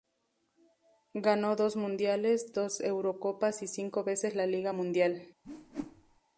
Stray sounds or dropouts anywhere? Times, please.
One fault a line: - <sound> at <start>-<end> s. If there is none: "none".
- whoosh at 5.4-6.2 s